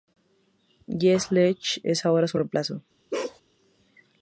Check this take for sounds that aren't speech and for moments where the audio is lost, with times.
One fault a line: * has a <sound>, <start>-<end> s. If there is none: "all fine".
* has a bark, 3.1-3.4 s